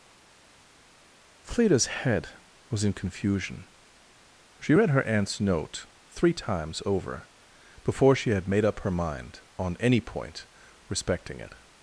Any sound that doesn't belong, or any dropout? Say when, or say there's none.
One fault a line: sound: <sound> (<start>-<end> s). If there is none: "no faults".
no faults